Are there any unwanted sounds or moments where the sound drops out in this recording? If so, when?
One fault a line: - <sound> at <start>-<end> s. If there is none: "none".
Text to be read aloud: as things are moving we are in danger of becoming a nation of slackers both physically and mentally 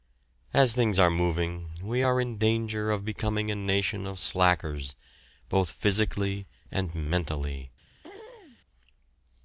- throat clearing at 8.0-8.6 s